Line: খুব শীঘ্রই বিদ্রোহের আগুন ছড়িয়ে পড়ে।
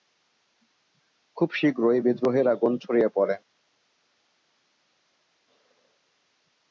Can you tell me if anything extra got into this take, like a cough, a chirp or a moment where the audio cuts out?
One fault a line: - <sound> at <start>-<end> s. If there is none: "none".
none